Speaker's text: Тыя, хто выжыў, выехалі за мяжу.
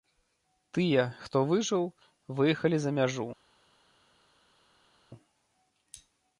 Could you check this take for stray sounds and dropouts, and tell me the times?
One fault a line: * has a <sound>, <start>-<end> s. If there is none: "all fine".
all fine